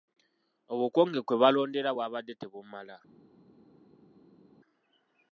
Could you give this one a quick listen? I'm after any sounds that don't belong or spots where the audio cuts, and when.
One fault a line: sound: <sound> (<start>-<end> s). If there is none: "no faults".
no faults